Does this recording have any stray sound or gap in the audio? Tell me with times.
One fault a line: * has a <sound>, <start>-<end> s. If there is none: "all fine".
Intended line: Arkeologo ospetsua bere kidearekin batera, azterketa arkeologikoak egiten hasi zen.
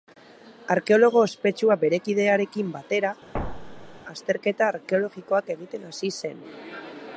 * has a thud, 3.3-4.0 s